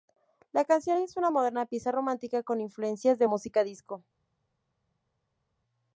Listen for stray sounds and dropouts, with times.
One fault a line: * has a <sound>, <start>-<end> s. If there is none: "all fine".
all fine